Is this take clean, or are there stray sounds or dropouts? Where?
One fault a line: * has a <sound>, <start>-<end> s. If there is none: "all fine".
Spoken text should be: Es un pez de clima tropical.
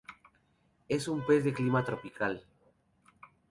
all fine